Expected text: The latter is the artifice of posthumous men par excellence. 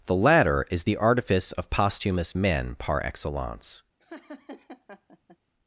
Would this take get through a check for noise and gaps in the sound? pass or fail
fail